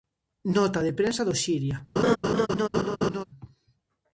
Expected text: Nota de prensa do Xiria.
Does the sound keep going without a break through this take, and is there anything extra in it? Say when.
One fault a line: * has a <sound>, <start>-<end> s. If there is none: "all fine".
* has a laugh, 2.0-3.2 s